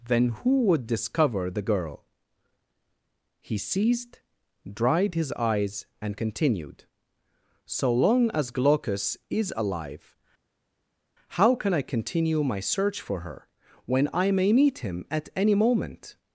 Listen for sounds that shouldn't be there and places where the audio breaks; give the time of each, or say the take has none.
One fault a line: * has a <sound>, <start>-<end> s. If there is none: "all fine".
all fine